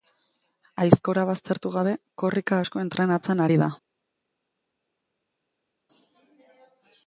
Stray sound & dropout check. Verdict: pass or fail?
pass